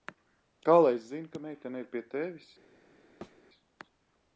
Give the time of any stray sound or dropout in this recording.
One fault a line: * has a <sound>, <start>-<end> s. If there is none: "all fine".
* has a thud, 3.2-3.4 s